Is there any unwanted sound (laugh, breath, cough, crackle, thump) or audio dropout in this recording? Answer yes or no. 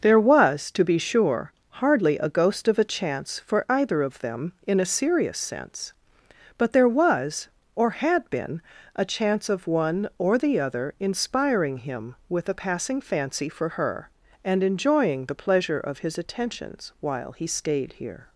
no